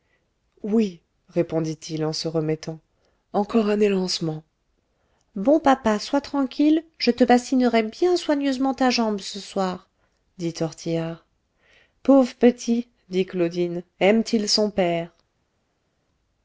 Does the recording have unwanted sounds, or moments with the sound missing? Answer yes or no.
no